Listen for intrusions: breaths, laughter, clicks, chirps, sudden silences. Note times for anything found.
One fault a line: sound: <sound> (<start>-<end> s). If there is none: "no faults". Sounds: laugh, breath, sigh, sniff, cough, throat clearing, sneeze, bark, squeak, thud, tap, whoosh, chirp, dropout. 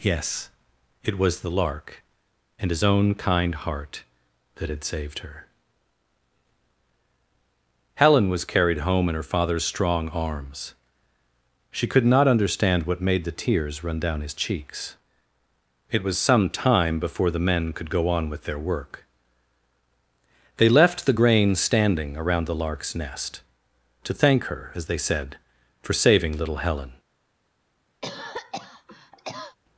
sound: cough (28.0-29.6 s)